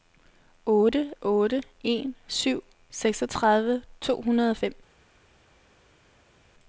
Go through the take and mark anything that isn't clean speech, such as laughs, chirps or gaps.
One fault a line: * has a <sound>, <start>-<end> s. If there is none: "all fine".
all fine